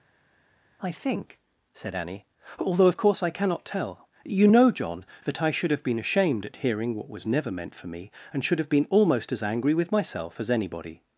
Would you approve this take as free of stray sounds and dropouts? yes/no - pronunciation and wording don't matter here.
yes